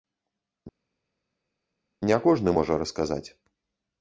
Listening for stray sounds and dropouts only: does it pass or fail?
pass